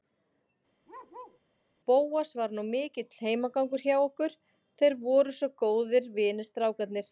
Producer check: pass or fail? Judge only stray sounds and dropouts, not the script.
fail